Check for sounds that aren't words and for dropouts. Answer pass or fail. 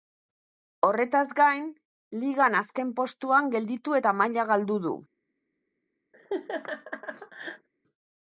fail